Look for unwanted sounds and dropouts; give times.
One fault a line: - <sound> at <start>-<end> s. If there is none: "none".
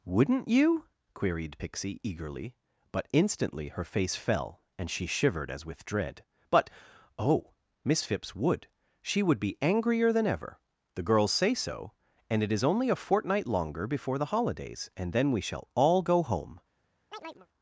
- chirp at 17.1-17.5 s